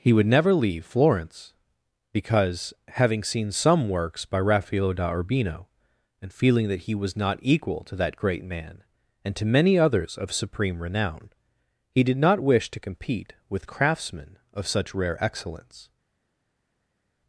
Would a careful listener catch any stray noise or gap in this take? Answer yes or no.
no